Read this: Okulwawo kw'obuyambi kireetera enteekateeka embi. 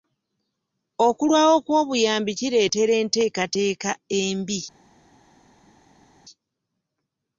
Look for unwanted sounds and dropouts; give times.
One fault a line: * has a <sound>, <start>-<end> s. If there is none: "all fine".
all fine